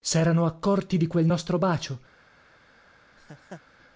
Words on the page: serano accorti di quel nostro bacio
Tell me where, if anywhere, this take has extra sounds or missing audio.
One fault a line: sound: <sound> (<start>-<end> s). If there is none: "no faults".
sound: laugh (3.2-3.6 s)